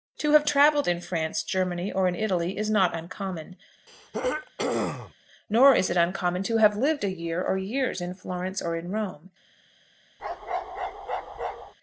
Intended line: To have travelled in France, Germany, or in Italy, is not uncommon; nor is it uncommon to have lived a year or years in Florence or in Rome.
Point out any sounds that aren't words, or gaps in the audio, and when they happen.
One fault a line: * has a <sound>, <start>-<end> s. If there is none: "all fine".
* has a throat clearing, 3.9-5.1 s
* has a bark, 10.2-11.7 s